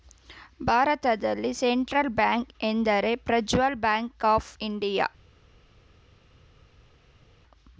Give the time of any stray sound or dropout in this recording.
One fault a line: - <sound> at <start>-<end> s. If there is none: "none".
none